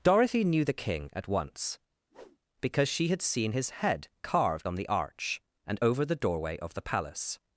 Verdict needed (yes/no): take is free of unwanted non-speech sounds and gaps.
no